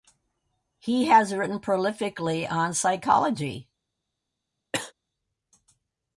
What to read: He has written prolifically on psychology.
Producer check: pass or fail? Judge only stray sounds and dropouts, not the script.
fail